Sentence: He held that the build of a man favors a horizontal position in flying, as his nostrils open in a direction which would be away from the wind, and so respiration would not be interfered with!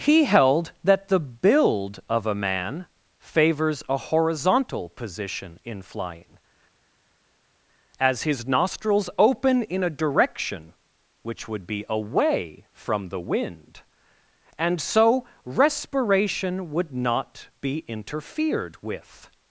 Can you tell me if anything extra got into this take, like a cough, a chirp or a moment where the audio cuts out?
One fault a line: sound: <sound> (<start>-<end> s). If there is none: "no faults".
no faults